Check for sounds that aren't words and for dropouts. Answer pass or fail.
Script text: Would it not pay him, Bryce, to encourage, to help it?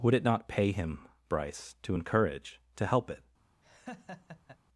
fail